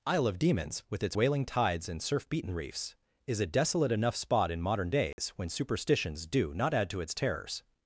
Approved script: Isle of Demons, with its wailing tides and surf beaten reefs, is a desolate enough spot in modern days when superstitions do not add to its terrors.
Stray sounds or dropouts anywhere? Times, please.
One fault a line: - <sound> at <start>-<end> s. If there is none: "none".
- dropout at 5.1-5.2 s